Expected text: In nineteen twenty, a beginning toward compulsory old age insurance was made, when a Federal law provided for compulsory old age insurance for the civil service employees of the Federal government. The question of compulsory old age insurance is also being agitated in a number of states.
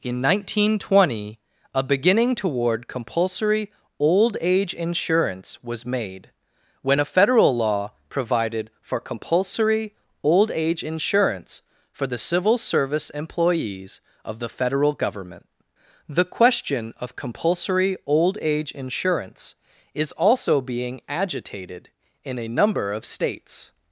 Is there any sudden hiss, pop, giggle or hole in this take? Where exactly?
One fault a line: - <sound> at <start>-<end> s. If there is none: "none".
none